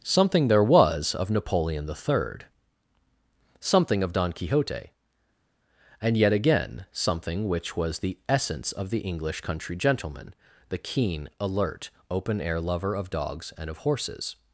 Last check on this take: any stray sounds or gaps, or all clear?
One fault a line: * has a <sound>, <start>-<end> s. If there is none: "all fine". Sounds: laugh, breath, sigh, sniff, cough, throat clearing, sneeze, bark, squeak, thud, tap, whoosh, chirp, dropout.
all fine